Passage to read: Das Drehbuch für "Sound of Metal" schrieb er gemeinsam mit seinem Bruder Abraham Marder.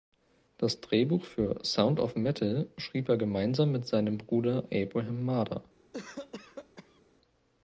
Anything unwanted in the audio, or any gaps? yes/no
yes